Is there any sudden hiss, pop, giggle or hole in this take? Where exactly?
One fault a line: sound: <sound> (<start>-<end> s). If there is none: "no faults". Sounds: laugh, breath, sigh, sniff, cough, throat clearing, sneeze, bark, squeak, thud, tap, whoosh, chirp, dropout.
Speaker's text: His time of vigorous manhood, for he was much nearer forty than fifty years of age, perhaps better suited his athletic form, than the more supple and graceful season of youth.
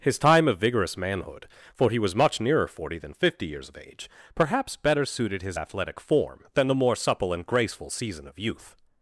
no faults